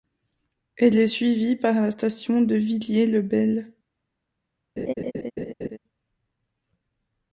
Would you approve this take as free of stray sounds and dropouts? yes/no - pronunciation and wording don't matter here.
no